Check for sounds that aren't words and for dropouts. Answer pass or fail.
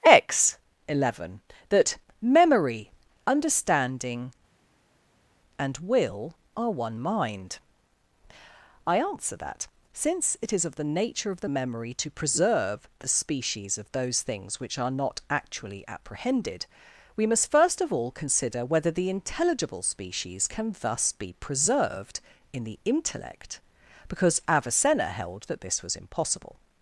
pass